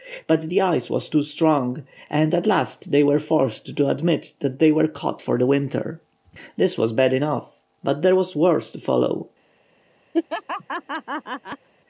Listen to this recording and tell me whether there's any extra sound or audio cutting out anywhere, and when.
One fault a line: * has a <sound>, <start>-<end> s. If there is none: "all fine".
* has a laugh, 10.1-11.7 s